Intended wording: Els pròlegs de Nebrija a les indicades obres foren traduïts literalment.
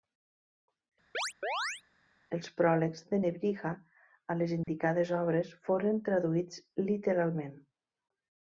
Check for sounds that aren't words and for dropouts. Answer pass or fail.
fail